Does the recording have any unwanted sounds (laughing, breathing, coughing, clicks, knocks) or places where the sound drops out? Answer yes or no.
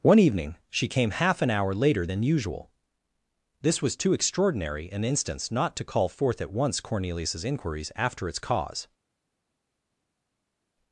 no